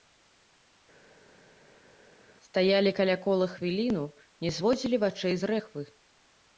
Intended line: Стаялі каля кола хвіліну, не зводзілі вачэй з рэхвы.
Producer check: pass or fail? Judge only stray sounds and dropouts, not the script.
pass